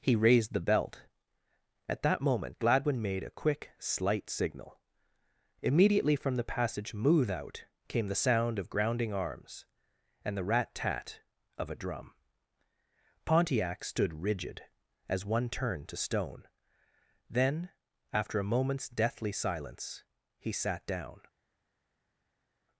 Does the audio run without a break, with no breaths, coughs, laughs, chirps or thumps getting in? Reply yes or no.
yes